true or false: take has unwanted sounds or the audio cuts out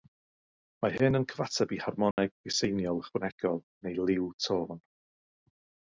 true